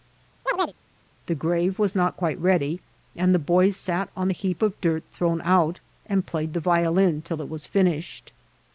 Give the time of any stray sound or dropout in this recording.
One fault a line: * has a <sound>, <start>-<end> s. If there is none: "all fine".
* has a chirp, 0.5-0.7 s